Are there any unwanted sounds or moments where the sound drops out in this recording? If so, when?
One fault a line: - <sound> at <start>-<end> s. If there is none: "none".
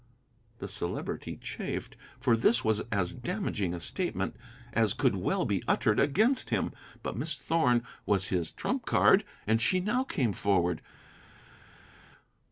none